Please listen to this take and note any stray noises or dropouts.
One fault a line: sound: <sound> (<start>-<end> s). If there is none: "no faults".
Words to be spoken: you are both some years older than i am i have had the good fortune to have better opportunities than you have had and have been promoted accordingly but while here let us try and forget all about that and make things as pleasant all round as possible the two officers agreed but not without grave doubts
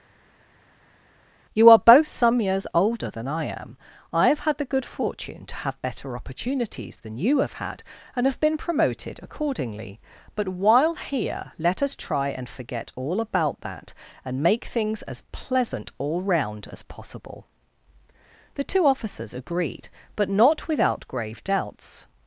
no faults